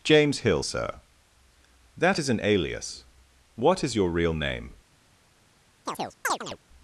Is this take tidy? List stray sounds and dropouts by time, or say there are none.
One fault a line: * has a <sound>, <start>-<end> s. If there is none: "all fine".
* has a chirp, 5.9-6.6 s